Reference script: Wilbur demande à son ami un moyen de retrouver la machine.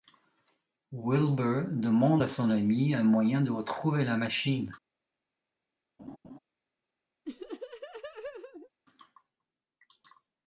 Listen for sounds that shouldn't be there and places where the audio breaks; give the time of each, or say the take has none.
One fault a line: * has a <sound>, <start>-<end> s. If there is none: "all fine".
* has a laugh, 6.0-6.4 s
* has a laugh, 7.3-8.7 s